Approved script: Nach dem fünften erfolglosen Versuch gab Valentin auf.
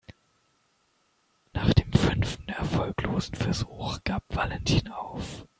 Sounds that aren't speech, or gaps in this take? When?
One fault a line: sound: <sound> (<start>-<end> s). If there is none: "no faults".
no faults